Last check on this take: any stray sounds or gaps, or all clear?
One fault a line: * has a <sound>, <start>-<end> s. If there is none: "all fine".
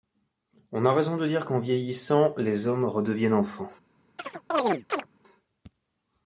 * has a chirp, 4.2-5.1 s